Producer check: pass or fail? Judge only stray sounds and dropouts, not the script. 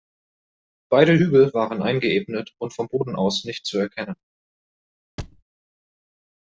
fail